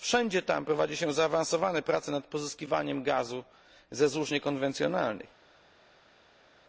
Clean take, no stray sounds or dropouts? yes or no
yes